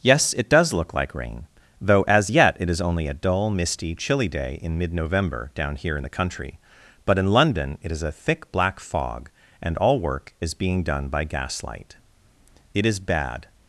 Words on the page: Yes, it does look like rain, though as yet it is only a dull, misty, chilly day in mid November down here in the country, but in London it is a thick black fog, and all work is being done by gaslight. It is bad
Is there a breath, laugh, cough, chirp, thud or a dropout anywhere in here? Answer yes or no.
no